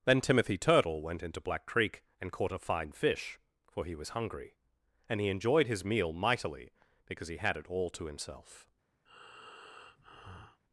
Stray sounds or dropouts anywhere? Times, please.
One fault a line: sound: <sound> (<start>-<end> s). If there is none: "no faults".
sound: breath (9.1-10.6 s)